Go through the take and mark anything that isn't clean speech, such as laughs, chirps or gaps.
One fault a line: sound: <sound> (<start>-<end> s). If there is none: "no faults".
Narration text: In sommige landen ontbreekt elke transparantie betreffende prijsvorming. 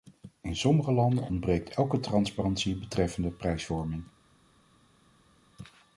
no faults